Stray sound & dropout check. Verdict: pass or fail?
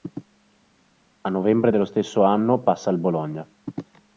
pass